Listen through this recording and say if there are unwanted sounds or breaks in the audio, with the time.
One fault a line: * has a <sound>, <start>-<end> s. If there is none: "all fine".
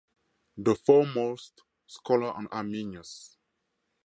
all fine